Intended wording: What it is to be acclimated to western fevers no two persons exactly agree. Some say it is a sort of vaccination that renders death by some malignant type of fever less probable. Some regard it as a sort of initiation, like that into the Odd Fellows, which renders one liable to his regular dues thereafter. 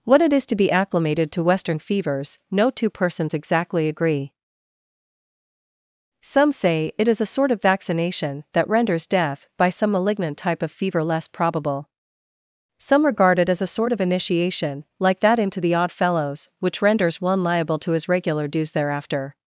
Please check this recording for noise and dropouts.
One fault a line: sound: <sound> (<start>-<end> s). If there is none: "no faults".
no faults